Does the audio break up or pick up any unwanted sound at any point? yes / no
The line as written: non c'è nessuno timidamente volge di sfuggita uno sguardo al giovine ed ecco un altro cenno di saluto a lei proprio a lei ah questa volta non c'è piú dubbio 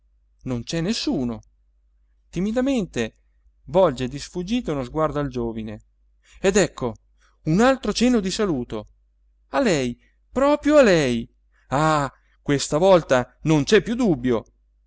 no